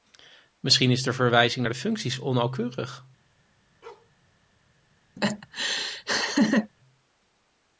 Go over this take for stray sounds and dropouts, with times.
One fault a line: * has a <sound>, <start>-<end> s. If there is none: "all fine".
* has a bark, 3.8-4.1 s
* has a laugh, 5.2-6.7 s